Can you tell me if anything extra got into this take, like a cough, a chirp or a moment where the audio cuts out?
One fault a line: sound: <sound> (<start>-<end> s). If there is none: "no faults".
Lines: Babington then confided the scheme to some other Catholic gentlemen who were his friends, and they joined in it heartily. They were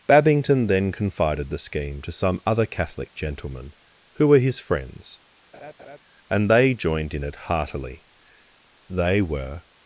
sound: laugh (5.5-6.0 s)